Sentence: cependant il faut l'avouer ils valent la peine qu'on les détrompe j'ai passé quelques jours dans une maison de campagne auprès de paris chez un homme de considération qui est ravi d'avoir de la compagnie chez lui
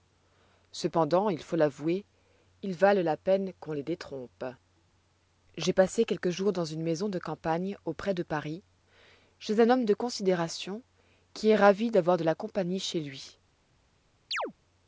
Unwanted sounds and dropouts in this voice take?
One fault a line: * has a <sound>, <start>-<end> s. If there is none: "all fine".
* has a chirp, 14.3-14.5 s